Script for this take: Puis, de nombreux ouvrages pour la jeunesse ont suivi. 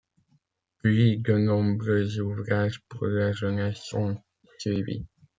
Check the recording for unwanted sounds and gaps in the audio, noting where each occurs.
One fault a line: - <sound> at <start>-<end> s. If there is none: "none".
none